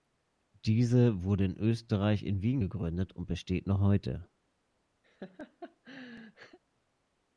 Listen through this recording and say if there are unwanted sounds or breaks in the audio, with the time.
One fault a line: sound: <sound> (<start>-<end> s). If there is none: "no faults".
sound: laugh (5.0-6.6 s)